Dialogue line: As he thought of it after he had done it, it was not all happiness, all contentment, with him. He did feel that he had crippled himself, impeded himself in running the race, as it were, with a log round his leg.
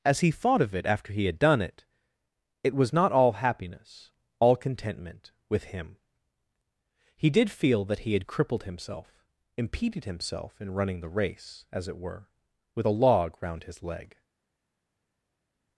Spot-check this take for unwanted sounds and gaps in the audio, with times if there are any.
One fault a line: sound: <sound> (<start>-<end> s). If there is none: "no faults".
no faults